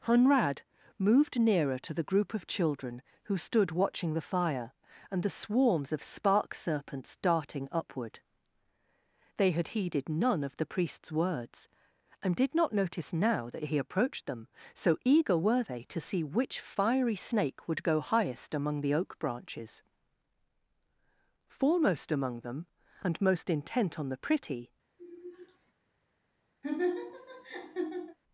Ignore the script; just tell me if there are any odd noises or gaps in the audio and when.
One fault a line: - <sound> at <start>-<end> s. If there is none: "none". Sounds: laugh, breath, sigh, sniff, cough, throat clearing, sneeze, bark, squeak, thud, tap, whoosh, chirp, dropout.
- sigh at 25.0-25.7 s
- laugh at 26.6-28.2 s